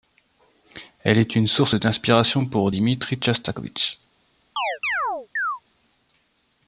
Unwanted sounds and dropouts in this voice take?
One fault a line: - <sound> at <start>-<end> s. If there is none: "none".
- chirp at 4.6-5.6 s